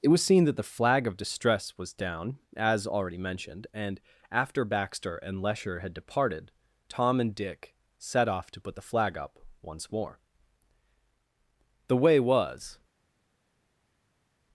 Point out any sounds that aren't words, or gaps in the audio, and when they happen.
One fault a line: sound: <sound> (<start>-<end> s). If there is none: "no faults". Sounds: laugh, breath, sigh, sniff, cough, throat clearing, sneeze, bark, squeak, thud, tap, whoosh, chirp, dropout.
no faults